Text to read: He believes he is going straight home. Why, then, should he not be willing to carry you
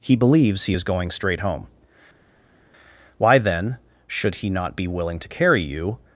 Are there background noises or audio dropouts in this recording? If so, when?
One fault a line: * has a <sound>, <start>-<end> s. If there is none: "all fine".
all fine